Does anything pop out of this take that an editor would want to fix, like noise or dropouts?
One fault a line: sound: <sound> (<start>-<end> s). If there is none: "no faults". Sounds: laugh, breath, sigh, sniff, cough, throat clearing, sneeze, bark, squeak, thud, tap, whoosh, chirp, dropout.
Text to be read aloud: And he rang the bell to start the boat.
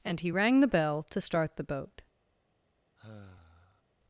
sound: sigh (3.0-3.8 s)